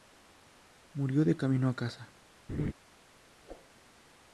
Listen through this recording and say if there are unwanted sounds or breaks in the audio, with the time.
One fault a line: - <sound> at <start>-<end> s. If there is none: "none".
- laugh at 2.5-2.7 s
- whoosh at 3.4-3.7 s